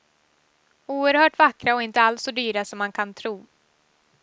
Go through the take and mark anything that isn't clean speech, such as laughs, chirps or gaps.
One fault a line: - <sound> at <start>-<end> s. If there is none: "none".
none